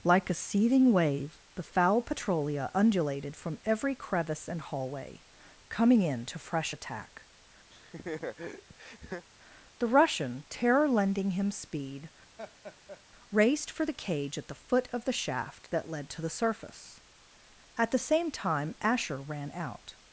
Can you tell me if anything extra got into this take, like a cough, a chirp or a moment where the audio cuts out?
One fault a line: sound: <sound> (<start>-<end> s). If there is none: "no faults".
sound: laugh (7.7-9.3 s)
sound: laugh (12.4-13.0 s)